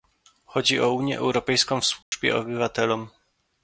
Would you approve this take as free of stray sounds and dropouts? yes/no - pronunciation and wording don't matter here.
no